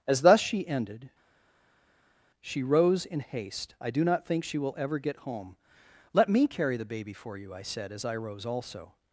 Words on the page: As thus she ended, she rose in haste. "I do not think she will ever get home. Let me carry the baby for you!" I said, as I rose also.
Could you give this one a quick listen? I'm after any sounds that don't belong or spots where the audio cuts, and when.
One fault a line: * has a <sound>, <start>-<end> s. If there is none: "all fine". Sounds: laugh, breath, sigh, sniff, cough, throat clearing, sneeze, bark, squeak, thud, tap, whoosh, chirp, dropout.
all fine